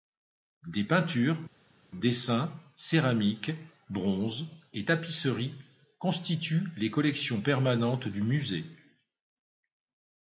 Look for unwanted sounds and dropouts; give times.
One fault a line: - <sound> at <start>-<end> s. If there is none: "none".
none